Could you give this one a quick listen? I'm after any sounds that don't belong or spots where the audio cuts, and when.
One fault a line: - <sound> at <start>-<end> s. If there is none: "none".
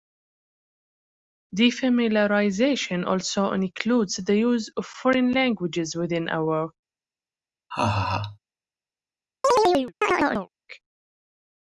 - laugh at 7.7-8.4 s
- chirp at 9.4-10.5 s